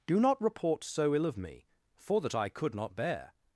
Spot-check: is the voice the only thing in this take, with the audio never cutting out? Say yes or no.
yes